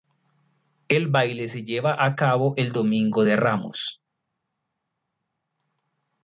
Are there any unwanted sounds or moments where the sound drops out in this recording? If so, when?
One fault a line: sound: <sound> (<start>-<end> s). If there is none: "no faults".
no faults